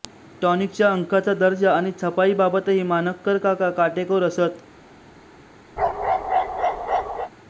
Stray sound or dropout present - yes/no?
yes